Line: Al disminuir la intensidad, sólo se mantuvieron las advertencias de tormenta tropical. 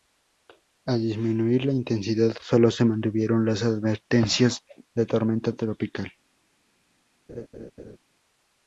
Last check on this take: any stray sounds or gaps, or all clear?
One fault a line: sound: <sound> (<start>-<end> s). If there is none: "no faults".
sound: laugh (7.3-8.0 s)